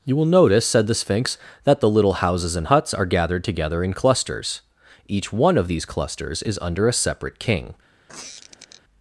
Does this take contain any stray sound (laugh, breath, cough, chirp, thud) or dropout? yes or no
yes